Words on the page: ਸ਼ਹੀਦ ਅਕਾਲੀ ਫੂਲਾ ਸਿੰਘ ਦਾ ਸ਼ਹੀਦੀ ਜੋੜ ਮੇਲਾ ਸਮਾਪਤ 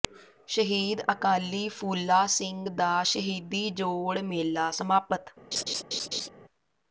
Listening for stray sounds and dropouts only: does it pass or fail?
fail